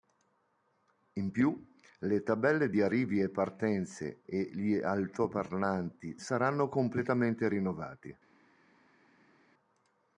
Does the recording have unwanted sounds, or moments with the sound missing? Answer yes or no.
no